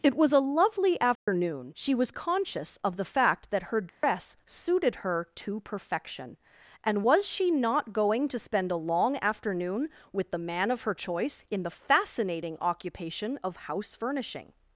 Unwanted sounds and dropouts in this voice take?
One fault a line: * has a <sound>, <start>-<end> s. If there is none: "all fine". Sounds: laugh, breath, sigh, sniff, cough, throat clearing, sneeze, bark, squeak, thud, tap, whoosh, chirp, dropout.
* has a dropout, 1.2-1.3 s
* has a dropout, 3.9-4.0 s